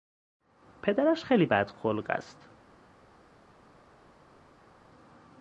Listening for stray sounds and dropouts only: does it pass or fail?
pass